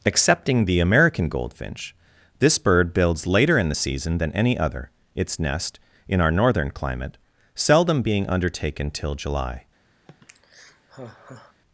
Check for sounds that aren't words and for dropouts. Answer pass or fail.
fail